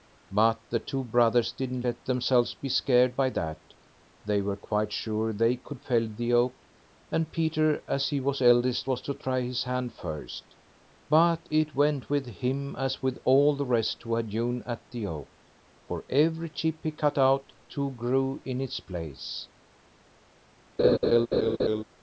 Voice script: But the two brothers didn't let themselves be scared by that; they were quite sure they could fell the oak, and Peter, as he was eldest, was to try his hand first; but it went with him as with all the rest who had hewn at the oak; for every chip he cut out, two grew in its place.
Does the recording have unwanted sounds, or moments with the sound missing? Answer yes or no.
yes